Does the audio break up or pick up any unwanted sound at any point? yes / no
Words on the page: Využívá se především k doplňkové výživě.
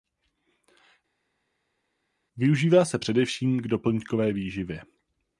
no